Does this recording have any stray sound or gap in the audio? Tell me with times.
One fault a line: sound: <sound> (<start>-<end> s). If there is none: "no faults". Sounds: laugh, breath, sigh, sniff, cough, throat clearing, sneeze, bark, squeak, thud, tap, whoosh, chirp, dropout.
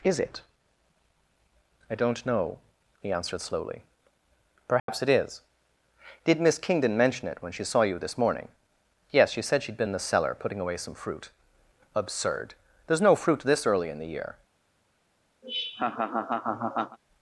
sound: dropout (4.8-4.9 s)
sound: laugh (15.4-17.0 s)